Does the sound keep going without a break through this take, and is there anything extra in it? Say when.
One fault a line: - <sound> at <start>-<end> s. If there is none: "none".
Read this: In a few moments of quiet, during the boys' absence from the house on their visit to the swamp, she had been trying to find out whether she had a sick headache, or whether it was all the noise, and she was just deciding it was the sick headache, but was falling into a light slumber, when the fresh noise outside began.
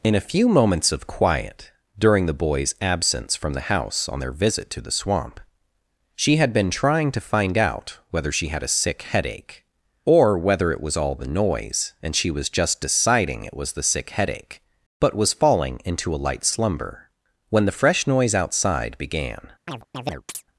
- chirp at 19.7-20.4 s